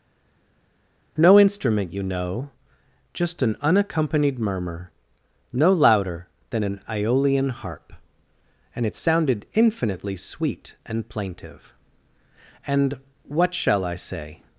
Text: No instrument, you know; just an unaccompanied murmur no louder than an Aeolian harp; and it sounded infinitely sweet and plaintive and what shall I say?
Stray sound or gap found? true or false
false